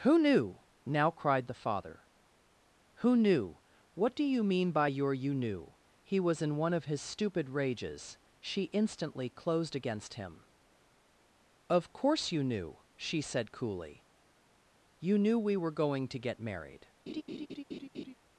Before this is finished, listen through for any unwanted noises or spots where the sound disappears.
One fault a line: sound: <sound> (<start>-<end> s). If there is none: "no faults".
sound: laugh (17.1-18.1 s)